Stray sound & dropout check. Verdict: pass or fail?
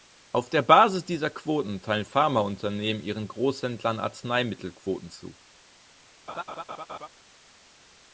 fail